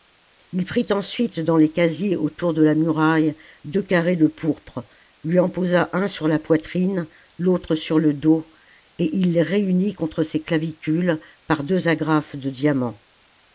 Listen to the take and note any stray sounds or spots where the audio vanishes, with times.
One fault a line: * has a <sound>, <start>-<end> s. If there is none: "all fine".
all fine